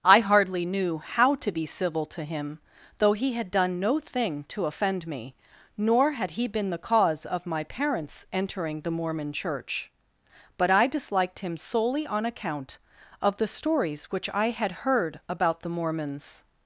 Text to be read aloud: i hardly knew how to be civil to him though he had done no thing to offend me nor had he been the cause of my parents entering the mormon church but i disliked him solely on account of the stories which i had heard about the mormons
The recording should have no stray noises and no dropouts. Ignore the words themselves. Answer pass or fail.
pass